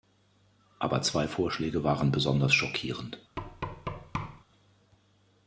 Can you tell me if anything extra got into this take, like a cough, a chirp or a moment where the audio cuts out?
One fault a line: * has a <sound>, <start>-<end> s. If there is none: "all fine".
* has a thud, 3.4-4.4 s